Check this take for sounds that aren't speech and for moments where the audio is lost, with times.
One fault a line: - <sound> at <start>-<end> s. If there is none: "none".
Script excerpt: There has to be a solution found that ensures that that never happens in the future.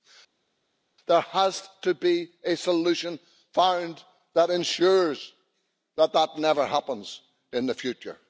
none